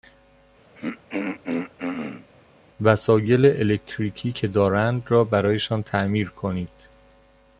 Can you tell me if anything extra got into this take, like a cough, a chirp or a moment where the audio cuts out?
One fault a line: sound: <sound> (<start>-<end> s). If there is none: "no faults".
sound: throat clearing (0.7-2.3 s)